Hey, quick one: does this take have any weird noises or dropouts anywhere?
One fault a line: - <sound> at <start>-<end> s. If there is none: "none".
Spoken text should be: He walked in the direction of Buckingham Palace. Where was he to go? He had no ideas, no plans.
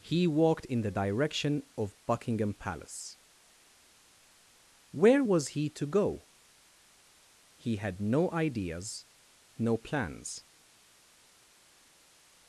none